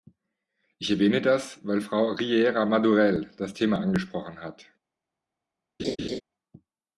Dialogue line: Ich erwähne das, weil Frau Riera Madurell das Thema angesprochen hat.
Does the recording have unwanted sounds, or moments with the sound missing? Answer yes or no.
yes